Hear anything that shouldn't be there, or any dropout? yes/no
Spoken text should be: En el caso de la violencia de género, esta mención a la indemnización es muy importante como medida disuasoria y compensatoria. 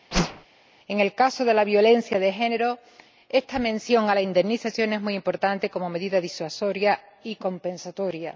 yes